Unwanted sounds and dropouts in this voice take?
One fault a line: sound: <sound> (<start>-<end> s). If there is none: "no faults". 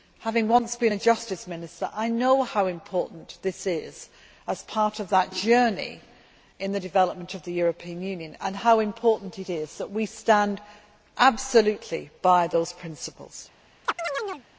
sound: chirp (13.8-14.4 s)